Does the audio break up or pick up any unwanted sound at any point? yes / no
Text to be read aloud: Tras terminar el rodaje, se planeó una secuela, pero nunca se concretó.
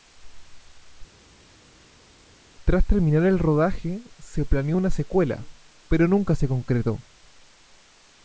no